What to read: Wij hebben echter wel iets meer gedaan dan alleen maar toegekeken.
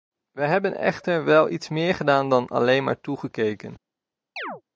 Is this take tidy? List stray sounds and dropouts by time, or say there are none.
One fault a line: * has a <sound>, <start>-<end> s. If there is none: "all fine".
* has a chirp, 4.4-4.6 s